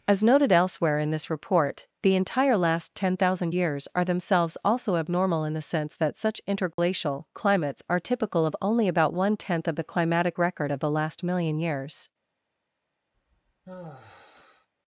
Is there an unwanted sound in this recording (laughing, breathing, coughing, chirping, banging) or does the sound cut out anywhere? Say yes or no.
yes